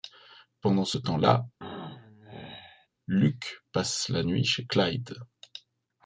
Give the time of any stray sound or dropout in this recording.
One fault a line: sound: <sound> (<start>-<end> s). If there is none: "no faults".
sound: throat clearing (1.6-2.9 s)